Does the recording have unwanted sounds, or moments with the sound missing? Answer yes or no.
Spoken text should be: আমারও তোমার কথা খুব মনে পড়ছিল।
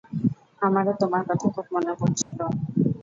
yes